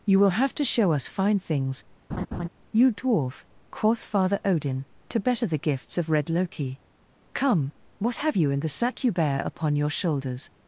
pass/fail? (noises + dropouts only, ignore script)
fail